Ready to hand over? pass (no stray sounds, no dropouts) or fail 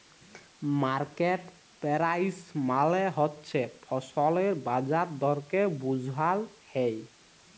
pass